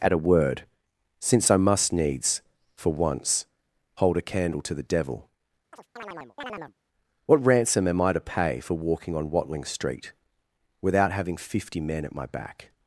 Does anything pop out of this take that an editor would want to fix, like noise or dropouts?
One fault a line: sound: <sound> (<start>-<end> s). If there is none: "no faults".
sound: chirp (5.7-6.7 s)